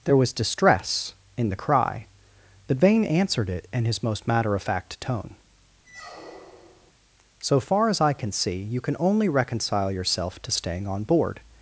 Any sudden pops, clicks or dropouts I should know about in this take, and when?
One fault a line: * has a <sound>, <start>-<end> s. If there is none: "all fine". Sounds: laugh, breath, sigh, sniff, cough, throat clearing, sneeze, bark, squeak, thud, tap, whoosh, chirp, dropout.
* has a squeak, 5.8-6.9 s